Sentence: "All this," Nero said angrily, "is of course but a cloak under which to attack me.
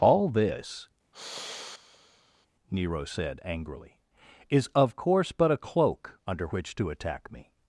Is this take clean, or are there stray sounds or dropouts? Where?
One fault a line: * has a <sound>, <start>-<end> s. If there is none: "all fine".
* has a sigh, 1.1-2.5 s